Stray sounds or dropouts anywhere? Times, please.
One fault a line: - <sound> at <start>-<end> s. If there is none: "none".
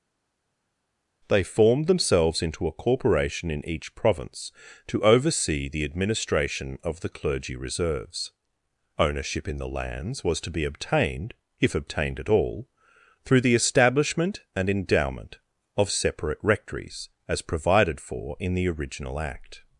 none